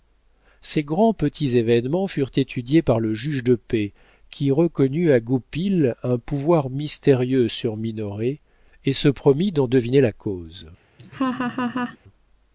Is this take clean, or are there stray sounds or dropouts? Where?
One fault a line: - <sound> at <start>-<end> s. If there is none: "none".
- laugh at 11.0-12.0 s